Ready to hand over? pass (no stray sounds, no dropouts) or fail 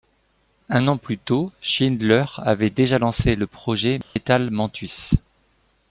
fail